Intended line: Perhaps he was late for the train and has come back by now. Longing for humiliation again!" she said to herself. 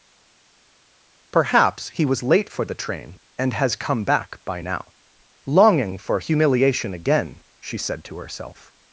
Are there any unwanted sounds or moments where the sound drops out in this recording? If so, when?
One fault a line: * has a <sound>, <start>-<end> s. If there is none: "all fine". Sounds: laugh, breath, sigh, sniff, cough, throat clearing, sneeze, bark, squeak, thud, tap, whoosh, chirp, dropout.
all fine